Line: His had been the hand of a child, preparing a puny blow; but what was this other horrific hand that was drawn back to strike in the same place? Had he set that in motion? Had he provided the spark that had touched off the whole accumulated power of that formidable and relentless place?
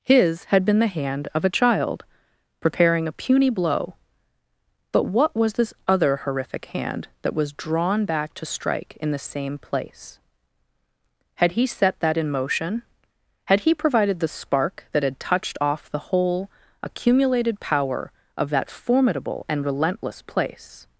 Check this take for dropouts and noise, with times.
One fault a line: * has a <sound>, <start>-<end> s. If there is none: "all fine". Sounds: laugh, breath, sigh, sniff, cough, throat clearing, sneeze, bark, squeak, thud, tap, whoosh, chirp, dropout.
all fine